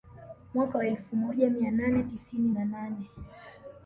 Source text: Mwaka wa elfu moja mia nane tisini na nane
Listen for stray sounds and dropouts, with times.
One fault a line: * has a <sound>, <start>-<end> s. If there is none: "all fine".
all fine